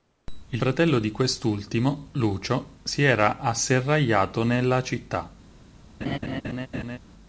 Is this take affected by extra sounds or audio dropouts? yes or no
yes